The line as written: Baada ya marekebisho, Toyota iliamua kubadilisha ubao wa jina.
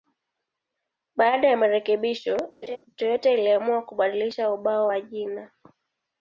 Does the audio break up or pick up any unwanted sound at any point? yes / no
yes